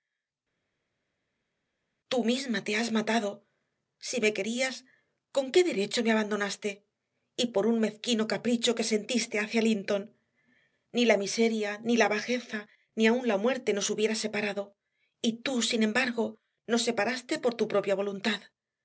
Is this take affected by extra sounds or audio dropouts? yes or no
no